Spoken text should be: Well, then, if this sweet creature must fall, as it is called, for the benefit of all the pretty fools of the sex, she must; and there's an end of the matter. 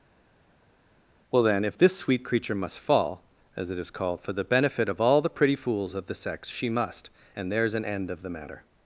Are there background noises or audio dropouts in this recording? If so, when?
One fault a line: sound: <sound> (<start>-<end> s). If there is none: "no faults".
no faults